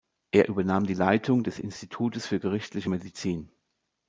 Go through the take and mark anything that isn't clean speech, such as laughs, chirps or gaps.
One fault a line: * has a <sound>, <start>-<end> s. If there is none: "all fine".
all fine